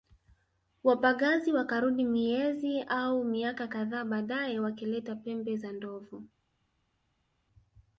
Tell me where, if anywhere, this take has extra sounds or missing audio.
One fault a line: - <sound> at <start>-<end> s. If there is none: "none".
none